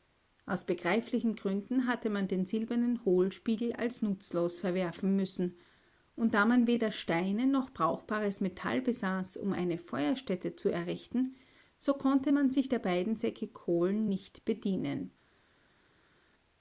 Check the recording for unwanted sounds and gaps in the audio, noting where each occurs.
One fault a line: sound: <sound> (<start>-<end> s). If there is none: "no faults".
no faults